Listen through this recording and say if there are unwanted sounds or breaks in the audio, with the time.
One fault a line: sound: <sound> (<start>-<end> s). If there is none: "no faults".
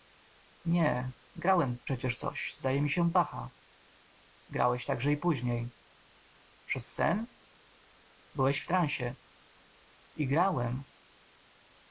no faults